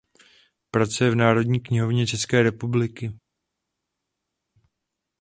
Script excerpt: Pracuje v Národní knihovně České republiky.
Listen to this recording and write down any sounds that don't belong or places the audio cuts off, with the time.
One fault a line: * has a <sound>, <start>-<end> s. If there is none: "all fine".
all fine